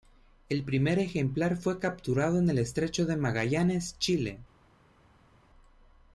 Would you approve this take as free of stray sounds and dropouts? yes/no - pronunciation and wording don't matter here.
yes